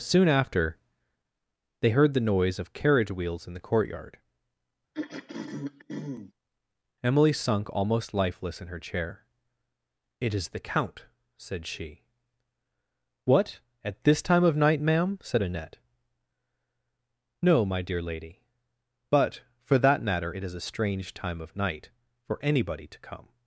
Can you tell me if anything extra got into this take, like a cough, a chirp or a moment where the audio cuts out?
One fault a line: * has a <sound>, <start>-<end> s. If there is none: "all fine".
* has a throat clearing, 4.9-6.3 s